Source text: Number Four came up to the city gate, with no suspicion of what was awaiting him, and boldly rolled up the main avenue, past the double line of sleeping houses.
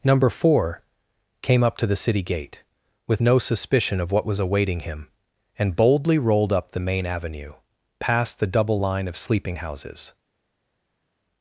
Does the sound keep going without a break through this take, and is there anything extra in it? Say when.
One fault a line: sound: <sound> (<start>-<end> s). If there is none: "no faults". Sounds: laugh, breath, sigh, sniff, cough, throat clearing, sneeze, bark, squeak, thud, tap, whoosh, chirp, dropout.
no faults